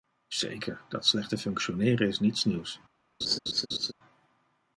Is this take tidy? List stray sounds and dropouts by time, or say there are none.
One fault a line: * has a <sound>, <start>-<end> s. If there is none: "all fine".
* has a laugh, 3.2-3.9 s